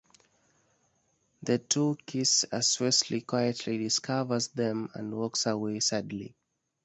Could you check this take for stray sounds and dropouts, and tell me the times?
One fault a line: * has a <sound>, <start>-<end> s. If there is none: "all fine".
all fine